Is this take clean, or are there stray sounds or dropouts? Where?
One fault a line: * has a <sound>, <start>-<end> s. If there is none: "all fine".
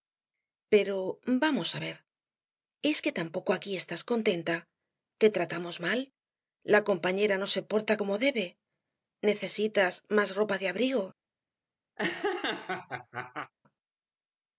* has a laugh, 12.0-13.5 s